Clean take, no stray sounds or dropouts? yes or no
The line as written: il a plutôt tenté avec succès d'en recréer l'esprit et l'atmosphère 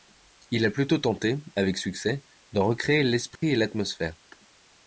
no